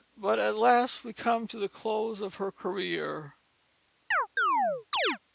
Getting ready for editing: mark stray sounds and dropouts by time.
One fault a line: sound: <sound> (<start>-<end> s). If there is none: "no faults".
sound: chirp (4.1-5.2 s)